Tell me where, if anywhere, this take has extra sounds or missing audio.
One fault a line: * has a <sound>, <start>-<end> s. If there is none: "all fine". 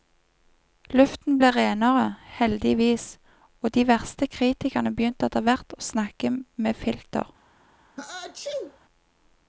* has a sneeze, 8.0-8.8 s